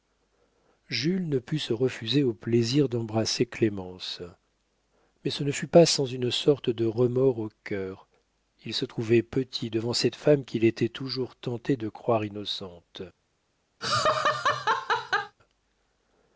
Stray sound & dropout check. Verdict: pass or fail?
fail